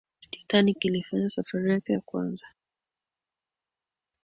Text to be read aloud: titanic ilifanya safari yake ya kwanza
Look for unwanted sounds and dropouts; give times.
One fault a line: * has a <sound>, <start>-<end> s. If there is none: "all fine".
all fine